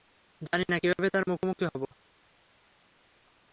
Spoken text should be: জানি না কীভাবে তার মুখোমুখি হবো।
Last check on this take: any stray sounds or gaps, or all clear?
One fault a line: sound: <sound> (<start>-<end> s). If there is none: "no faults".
no faults